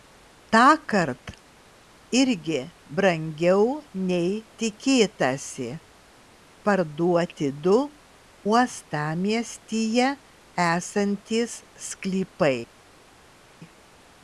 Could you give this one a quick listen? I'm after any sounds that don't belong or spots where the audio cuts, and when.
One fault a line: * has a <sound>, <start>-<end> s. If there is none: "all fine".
all fine